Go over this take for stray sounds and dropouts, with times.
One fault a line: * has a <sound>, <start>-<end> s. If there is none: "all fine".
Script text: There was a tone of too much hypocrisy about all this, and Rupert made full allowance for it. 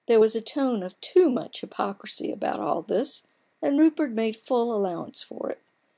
all fine